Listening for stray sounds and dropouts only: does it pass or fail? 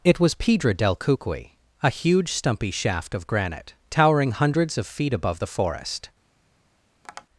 fail